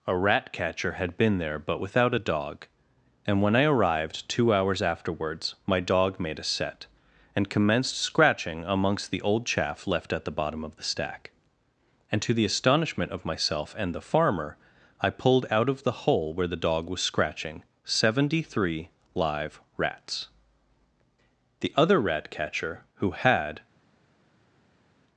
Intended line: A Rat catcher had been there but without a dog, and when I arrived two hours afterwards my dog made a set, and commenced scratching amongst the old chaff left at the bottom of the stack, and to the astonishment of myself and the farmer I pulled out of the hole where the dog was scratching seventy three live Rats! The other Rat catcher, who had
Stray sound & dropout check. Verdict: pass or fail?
pass